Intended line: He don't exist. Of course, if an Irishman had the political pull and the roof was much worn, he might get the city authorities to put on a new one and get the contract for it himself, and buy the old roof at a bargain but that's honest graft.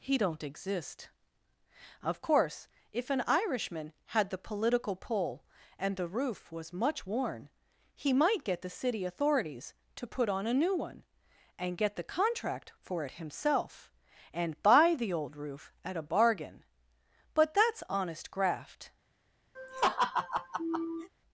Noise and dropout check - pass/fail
fail